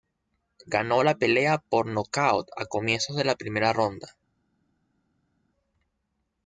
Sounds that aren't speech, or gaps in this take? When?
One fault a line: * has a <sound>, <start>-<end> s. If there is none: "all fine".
all fine